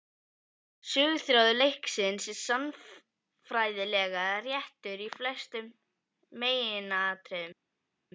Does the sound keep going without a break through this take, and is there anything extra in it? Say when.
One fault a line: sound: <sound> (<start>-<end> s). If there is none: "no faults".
no faults